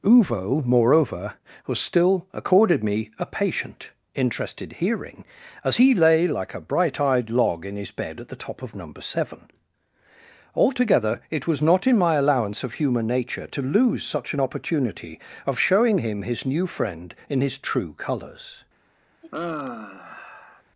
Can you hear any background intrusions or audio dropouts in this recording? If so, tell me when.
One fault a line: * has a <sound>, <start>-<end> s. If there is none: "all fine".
* has a sigh, 19.2-20.6 s